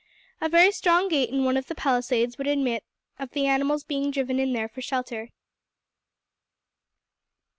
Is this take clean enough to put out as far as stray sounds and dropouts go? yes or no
yes